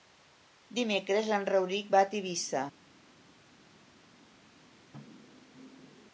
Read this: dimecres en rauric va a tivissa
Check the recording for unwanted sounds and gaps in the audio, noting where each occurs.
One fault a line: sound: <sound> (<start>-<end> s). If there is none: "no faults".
no faults